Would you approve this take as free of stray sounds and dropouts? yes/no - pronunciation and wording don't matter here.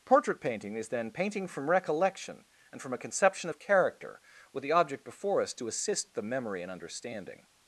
yes